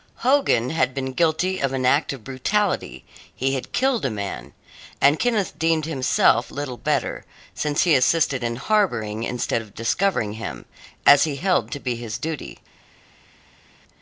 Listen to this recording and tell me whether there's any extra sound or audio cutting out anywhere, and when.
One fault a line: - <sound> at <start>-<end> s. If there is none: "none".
none